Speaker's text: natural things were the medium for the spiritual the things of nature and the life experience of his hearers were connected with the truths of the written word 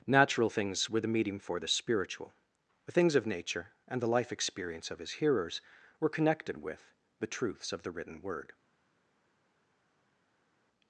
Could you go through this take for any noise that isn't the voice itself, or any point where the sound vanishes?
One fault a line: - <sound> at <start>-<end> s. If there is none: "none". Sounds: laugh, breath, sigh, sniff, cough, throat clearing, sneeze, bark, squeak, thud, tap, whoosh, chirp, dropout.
none